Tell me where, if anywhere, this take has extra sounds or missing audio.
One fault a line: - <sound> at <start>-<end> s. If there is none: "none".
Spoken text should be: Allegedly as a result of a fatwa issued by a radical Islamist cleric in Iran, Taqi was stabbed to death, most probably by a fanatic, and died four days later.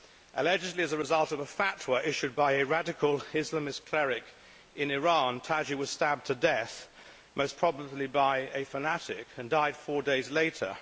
none